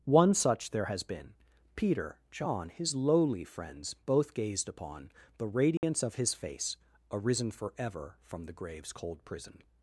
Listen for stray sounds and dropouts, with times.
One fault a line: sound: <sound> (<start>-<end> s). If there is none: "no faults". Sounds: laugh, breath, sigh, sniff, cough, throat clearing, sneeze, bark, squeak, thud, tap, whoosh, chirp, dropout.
sound: dropout (5.8-5.8 s)